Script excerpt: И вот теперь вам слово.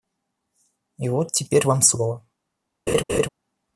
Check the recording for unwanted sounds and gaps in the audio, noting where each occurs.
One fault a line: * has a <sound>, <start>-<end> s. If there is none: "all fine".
* has a laugh, 2.9-3.3 s